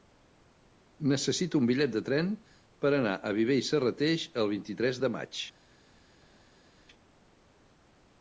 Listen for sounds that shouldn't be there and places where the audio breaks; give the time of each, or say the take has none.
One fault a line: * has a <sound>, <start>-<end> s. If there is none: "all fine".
all fine